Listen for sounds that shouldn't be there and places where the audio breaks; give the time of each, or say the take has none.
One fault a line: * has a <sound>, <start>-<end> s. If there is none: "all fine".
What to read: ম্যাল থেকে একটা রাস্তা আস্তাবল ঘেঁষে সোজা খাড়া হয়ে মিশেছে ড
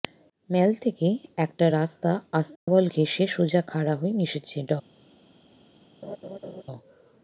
* has a dropout, 2.6-2.7 s
* has a laugh, 6.0-6.6 s